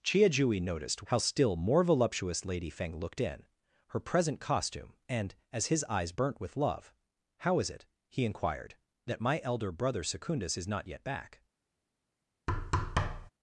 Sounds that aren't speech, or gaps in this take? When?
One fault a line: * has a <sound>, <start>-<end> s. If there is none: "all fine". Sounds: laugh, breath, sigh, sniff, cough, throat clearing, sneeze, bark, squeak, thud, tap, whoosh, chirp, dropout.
* has a thud, 12.5-13.3 s